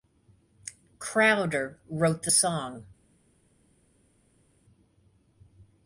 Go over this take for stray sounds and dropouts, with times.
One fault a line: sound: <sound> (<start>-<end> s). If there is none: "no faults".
no faults